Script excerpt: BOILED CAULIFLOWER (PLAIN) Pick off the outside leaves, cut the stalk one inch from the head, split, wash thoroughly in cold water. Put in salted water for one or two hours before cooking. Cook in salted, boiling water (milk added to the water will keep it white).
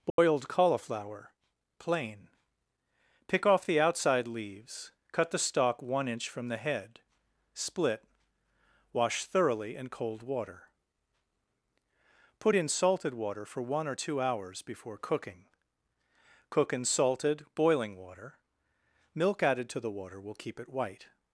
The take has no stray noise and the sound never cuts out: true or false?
false